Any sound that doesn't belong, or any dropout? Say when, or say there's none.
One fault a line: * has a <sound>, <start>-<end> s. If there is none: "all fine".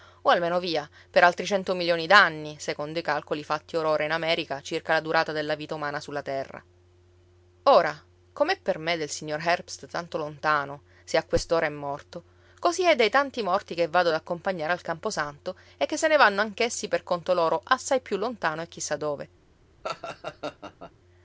* has a laugh, 19.8-20.9 s